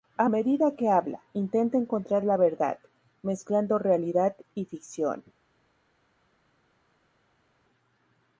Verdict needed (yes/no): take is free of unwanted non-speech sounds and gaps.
yes